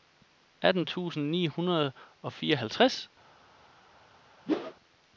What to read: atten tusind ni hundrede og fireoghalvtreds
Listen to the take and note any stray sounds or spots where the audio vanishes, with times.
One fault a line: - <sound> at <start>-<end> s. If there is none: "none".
- whoosh at 4.5-4.7 s